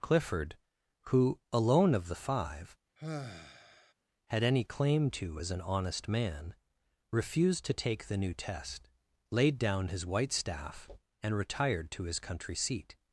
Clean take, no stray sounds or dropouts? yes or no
no